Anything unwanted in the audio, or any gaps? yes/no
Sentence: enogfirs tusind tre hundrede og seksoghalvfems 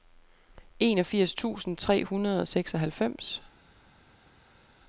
no